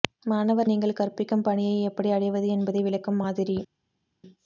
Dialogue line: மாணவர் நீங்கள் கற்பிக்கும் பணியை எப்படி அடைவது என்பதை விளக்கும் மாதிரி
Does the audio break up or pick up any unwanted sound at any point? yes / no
no